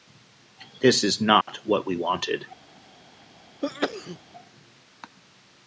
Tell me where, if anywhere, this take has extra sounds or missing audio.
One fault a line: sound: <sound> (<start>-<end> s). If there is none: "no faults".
sound: dropout (1.4-1.5 s)
sound: sneeze (3.6-4.2 s)